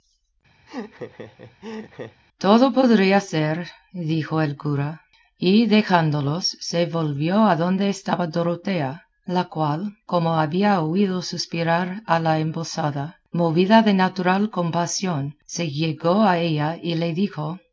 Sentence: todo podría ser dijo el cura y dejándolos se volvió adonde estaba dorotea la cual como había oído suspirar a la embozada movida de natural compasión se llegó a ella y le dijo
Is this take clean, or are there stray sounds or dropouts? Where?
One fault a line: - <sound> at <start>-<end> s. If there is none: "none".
- laugh at 0.7-2.2 s